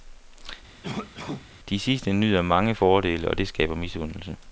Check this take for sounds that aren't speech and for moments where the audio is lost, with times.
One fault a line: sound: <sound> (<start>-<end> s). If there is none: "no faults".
sound: cough (0.8-1.5 s)